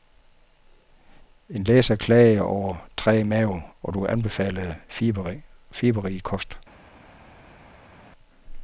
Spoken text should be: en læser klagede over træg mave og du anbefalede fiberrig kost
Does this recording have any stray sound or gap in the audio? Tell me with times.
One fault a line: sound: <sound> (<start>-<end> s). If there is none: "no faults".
no faults